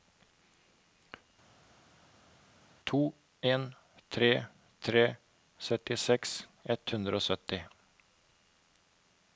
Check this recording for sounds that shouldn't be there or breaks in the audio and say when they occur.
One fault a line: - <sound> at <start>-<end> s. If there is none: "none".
none